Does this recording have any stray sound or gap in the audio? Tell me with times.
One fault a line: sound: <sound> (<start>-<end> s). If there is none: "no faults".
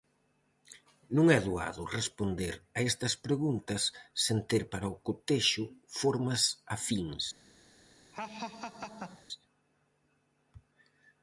sound: laugh (8.1-9.3 s)